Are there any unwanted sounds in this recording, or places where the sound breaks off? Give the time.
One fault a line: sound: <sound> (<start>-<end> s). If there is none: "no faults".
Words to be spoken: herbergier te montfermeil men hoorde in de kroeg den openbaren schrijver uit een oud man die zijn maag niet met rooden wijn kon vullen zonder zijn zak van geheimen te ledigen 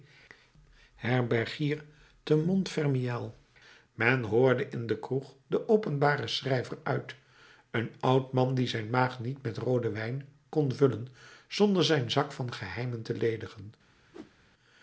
sound: whoosh (14.1-14.3 s)